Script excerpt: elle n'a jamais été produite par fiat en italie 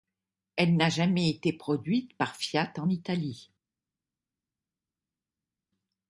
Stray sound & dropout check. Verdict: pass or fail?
pass